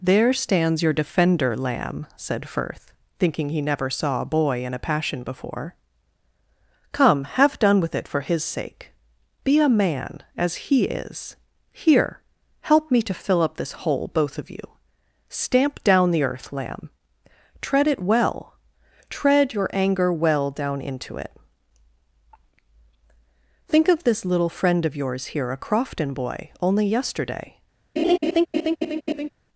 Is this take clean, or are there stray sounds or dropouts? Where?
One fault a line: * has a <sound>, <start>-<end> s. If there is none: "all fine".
* has a laugh, 28.0-29.3 s